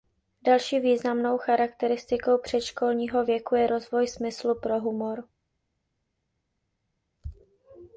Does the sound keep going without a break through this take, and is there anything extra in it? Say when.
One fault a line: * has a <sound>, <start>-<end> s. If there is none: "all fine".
all fine